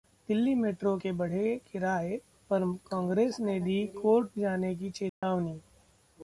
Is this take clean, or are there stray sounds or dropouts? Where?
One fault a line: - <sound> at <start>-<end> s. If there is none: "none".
- dropout at 5.1-5.2 s